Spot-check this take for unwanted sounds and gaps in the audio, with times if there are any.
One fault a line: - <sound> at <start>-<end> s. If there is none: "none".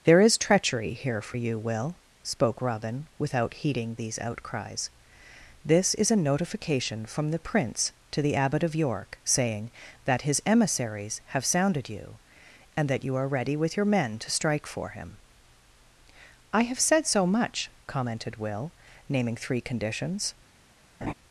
- laugh at 21.0-21.1 s